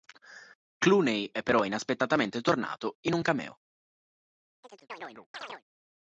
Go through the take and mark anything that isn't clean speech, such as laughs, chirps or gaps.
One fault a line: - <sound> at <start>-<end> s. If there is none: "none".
- chirp at 4.6-5.6 s